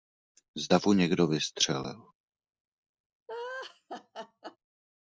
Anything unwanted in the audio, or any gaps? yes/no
yes